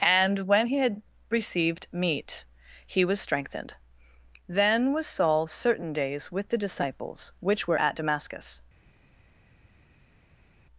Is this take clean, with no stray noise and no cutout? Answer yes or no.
yes